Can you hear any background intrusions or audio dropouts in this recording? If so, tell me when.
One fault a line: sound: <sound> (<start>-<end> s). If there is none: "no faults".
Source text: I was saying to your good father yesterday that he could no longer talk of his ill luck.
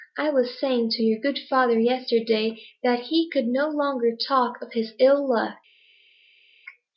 no faults